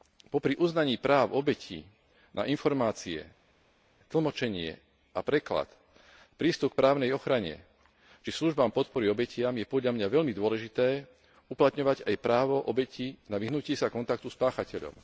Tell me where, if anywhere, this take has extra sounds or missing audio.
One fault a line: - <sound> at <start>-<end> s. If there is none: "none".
none